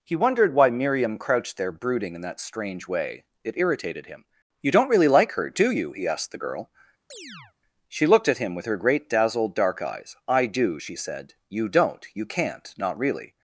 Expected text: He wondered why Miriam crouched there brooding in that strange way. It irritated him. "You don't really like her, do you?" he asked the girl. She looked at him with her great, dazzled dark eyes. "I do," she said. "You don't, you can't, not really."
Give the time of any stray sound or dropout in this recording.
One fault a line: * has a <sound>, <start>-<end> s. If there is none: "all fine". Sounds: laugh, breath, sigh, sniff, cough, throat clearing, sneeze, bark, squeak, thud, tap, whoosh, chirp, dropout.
* has a chirp, 7.1-7.5 s